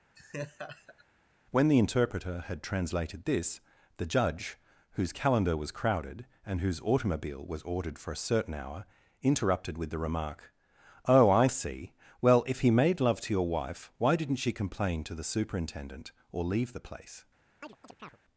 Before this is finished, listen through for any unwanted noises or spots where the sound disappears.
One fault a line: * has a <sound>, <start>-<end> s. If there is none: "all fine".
* has a laugh, 0.2-1.1 s
* has a chirp, 17.6-18.2 s